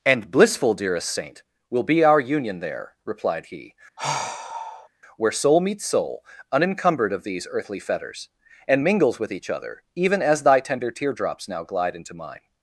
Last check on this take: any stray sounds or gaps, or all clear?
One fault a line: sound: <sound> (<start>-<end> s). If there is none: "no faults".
sound: sigh (4.0-4.9 s)